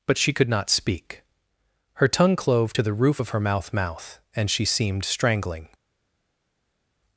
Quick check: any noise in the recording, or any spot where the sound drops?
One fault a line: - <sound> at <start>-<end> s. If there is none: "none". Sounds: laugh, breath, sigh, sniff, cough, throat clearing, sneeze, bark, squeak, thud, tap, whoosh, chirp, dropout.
none